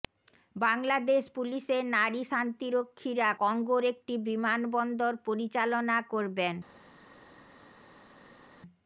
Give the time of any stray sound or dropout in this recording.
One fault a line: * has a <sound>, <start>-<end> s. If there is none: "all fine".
all fine